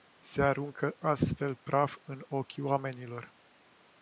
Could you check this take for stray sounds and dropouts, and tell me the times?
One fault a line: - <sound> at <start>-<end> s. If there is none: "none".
none